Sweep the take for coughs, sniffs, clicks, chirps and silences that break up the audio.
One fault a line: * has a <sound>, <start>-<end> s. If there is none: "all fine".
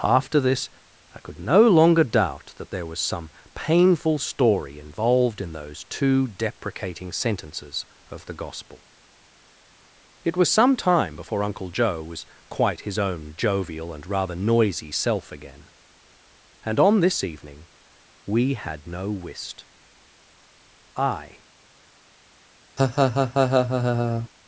* has a laugh, 22.8-24.3 s